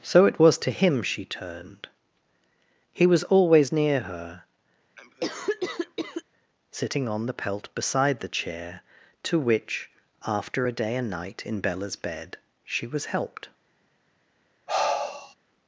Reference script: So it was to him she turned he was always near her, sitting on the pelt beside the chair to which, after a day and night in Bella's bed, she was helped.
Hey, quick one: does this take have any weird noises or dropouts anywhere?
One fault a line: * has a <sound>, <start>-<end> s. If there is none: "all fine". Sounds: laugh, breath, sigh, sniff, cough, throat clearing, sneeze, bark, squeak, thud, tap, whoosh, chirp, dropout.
* has a cough, 5.0-6.2 s
* has a sigh, 14.7-15.3 s